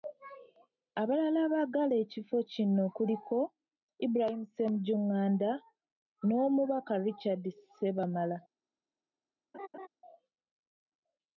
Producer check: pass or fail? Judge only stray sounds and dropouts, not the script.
fail